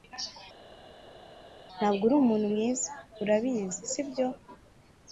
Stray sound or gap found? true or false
false